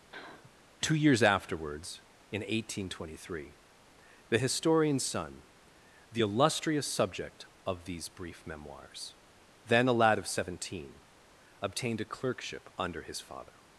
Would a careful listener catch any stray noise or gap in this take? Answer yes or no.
yes